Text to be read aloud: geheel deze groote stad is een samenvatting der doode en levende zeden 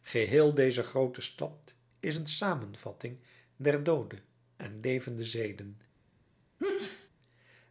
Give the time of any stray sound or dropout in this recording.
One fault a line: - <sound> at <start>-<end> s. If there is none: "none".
- sneeze at 6.6-7.1 s